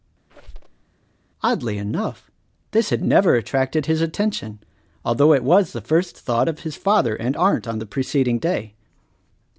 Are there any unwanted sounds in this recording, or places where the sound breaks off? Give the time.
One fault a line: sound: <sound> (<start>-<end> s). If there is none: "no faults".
sound: squeak (0.3-0.8 s)